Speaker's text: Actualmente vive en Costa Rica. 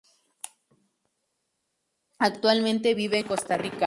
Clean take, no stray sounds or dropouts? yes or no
yes